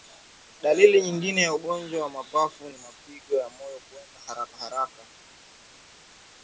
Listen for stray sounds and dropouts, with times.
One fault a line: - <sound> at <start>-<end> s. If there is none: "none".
none